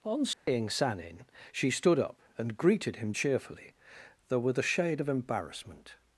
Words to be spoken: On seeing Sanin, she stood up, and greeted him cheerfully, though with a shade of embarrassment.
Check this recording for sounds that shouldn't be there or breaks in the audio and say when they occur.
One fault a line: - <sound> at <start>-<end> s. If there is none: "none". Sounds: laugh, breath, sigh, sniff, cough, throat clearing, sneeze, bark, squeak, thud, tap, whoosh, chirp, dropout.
- dropout at 0.3-0.5 s